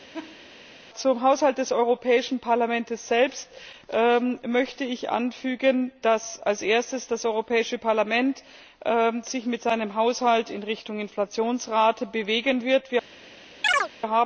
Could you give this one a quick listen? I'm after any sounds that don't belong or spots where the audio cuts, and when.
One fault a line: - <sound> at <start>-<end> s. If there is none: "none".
- laugh at 0.1-0.5 s
- chirp at 13.6-13.9 s